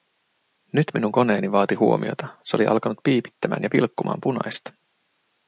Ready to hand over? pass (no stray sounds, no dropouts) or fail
pass